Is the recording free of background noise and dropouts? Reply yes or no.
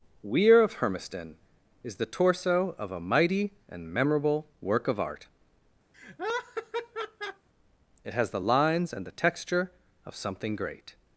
no